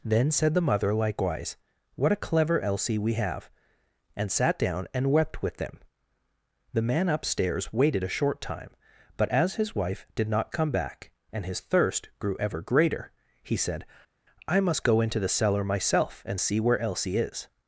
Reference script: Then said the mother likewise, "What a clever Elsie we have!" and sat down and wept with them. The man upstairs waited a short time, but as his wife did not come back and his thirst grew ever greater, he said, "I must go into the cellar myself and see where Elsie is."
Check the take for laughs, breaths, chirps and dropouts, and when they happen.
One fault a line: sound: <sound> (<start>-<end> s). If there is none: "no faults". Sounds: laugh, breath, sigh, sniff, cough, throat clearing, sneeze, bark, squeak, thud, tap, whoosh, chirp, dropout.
no faults